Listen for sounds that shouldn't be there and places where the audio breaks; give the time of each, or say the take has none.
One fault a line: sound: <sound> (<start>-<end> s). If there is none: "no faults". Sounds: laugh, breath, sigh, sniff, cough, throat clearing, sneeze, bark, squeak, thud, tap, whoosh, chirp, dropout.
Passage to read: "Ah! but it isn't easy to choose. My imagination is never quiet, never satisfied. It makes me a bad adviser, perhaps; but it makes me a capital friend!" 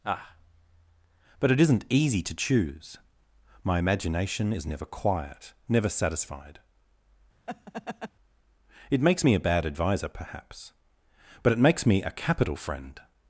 sound: laugh (7.5-8.1 s)